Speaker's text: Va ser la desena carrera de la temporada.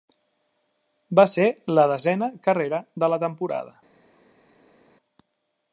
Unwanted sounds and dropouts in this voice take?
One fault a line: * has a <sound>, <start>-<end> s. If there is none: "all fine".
all fine